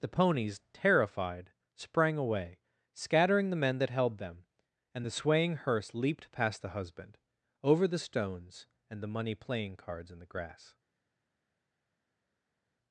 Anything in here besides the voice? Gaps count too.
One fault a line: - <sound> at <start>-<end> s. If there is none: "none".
none